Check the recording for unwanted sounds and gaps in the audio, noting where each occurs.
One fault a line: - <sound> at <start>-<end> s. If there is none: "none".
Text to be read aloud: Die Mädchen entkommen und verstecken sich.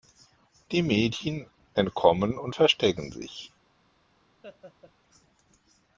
- laugh at 4.4-4.9 s